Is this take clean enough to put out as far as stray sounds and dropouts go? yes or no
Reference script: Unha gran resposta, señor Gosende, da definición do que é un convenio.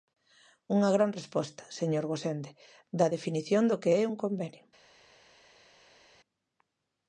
yes